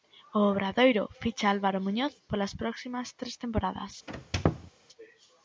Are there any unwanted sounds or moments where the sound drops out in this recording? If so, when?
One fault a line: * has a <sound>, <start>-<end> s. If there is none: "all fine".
* has a squeak, 4.1-4.7 s